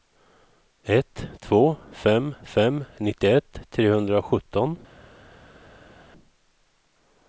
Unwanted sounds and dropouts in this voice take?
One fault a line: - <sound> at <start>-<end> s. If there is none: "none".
none